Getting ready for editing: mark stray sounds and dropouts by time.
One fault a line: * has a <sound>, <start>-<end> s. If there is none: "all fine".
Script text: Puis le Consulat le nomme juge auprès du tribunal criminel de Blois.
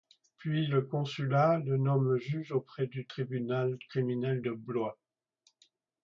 all fine